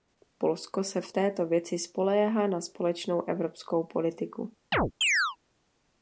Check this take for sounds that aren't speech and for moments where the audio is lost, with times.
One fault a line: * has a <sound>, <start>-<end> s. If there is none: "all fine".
* has a chirp, 4.7-5.4 s